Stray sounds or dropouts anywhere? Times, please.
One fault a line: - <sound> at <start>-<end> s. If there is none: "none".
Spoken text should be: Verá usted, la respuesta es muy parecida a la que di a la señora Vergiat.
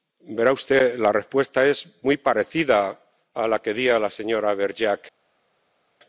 none